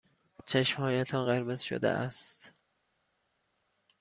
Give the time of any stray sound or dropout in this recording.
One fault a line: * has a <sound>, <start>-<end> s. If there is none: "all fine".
all fine